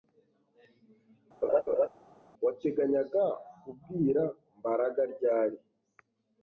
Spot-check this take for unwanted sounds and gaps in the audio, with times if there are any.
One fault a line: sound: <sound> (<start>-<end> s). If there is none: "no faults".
sound: laugh (1.4-1.9 s)